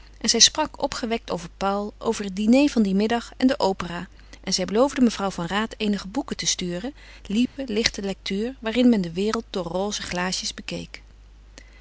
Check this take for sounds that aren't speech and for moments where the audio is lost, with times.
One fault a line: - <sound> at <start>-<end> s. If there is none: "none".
- dropout at 7.5-7.6 s